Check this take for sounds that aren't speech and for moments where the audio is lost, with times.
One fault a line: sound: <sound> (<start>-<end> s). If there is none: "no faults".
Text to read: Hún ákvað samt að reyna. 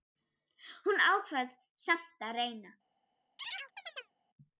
sound: chirp (3.4-4.1 s)